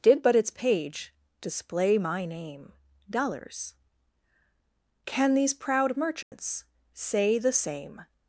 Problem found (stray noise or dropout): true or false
true